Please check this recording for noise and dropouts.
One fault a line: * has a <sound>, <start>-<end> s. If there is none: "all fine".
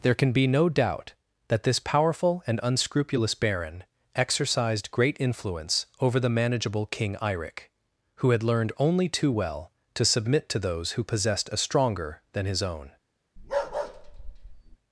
* has a bark, 13.4-14.8 s